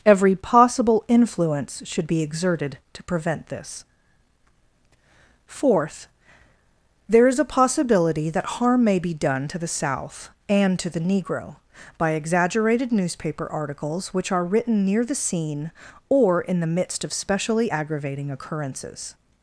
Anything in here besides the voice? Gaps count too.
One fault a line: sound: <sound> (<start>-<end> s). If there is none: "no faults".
no faults